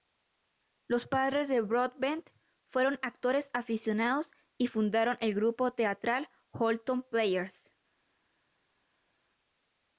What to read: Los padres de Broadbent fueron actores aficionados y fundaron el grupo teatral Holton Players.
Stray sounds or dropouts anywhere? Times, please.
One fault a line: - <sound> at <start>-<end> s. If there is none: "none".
none